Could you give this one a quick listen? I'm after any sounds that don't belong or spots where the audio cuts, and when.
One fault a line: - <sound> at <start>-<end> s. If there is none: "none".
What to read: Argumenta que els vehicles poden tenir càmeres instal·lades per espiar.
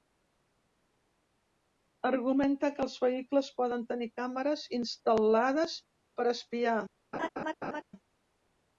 - laugh at 7.1-7.8 s